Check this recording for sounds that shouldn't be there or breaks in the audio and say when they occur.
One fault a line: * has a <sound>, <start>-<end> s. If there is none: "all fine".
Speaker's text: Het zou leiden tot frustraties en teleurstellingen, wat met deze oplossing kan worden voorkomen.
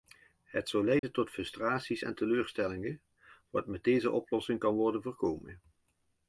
* has a dropout, 1.0-1.0 s